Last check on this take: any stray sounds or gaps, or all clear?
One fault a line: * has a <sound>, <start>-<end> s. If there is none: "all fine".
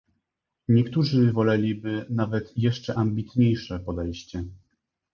all fine